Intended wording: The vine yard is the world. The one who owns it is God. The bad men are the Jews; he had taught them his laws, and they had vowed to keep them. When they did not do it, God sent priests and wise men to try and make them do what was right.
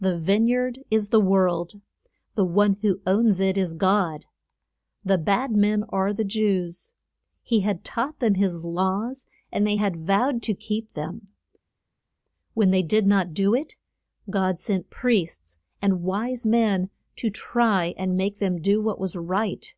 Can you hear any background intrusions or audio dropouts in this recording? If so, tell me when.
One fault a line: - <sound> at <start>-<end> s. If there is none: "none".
none